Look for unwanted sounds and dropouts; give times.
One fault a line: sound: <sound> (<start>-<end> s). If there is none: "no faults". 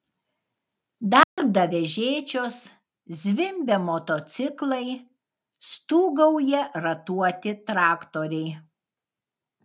sound: dropout (1.2-1.4 s)